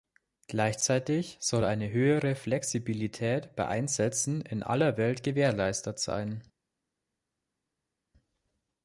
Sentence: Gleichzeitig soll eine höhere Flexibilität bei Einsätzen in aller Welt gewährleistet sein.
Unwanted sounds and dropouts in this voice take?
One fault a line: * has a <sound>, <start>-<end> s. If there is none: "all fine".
all fine